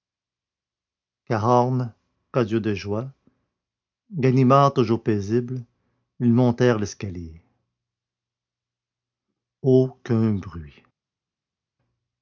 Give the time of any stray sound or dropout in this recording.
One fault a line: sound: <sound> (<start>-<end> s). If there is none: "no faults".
no faults